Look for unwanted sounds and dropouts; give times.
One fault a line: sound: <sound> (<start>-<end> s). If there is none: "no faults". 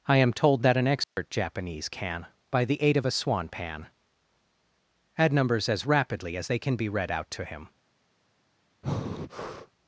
sound: dropout (1.0-1.2 s)
sound: breath (8.8-9.7 s)